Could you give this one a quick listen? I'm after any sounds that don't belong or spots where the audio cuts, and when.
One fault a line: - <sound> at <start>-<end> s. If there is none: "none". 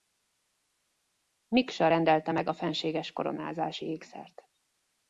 none